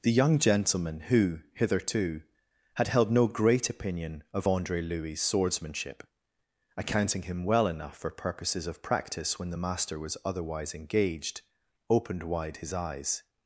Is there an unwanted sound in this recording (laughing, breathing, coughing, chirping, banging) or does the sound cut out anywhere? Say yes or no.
no